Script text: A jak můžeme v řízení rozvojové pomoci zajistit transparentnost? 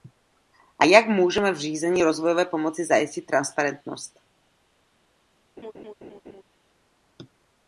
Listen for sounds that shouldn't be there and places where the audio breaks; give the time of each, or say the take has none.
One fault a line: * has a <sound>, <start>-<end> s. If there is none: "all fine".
* has a laugh, 5.6-6.4 s